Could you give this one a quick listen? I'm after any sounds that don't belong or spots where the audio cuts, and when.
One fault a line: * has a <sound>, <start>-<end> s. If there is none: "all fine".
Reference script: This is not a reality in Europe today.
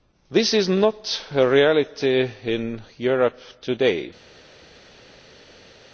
all fine